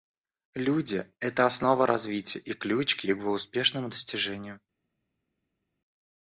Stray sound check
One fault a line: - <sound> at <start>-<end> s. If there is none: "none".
none